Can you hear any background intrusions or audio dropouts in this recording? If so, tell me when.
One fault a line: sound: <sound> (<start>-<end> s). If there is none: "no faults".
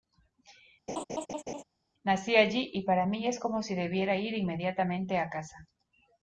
sound: laugh (0.9-1.6 s)